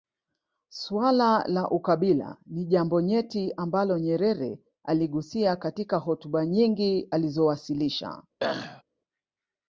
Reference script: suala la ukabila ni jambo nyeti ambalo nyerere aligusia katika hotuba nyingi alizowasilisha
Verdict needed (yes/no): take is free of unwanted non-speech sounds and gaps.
no